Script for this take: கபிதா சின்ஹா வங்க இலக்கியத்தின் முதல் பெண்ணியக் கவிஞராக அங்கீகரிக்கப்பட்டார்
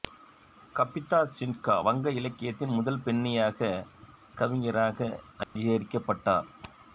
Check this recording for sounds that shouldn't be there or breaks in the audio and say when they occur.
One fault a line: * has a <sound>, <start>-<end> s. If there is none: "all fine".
* has a dropout, 5.4-5.6 s